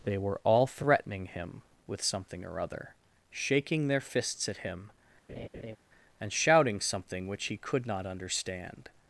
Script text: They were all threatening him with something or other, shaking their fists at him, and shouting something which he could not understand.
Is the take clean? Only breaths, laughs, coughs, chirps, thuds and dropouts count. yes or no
no